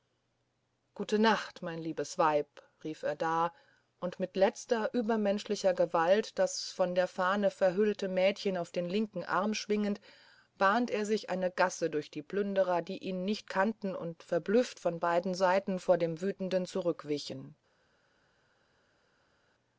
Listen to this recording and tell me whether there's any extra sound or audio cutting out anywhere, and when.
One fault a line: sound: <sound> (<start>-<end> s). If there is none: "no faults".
no faults